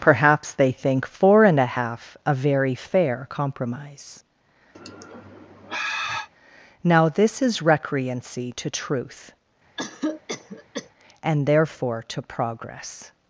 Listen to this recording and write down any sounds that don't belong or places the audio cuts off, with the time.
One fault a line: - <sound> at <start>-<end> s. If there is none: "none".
- sigh at 4.7-6.3 s
- cough at 9.8-10.9 s